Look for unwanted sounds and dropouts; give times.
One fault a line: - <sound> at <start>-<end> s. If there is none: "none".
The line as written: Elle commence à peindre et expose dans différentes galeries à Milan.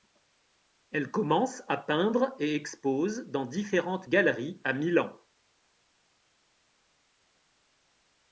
none